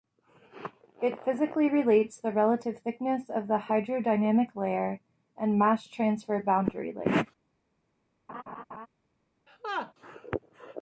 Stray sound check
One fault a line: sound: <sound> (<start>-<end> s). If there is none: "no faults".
sound: laugh (8.3-8.9 s)
sound: laugh (9.5-9.9 s)